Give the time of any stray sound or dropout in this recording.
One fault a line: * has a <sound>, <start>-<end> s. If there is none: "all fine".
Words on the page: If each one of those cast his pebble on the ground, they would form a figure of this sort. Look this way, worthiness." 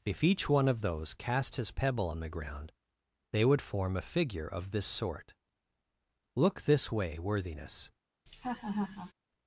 * has a laugh, 8.3-9.1 s